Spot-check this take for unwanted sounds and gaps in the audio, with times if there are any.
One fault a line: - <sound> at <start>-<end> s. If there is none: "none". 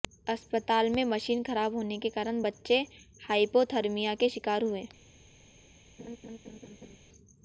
- laugh at 6.0-7.0 s